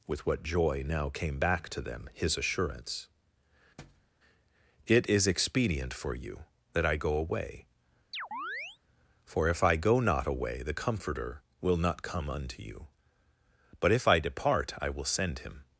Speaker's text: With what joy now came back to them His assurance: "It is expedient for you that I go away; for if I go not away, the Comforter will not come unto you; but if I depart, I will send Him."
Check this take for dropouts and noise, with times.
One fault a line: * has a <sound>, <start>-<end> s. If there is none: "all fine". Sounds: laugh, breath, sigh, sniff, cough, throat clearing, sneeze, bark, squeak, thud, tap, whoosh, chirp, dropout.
* has a thud, 3.8-4.1 s
* has a chirp, 8.1-8.8 s